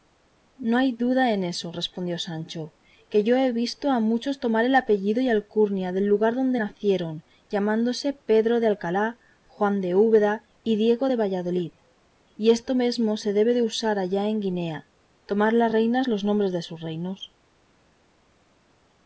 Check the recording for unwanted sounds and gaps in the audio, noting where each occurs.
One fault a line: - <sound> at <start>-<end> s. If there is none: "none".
none